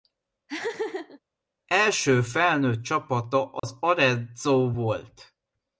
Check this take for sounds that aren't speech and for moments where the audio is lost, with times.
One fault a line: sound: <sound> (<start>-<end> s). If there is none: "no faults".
sound: laugh (0.5-1.2 s)
sound: dropout (3.6-3.6 s)